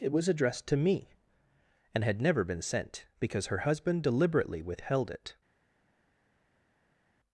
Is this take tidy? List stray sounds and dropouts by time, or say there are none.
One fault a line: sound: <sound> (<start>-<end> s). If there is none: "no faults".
no faults